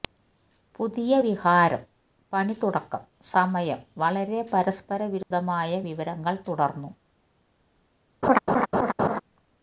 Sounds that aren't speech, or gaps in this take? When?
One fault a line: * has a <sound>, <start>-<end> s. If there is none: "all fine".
* has a dropout, 5.2-5.3 s
* has a laugh, 8.2-9.2 s